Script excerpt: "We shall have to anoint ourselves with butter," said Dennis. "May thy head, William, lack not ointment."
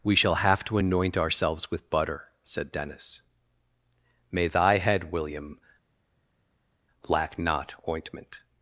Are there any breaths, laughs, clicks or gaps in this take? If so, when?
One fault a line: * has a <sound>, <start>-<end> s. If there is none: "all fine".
all fine